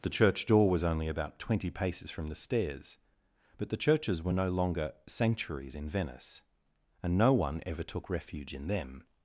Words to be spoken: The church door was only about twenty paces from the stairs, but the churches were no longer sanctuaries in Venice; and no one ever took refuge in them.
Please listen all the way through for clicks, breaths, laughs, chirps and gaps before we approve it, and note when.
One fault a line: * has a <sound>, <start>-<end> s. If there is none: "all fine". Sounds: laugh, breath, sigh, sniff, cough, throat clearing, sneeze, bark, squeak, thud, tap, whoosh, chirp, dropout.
all fine